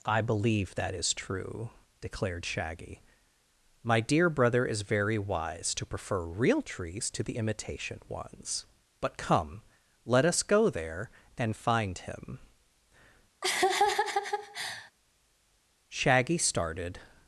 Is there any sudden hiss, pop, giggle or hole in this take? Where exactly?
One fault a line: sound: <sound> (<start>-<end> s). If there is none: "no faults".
sound: laugh (13.4-14.9 s)